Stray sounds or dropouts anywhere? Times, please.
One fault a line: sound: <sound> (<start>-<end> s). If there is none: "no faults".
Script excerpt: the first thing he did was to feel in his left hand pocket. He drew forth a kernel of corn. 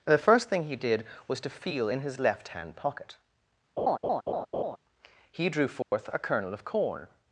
sound: laugh (3.8-4.8 s)
sound: dropout (5.8-5.9 s)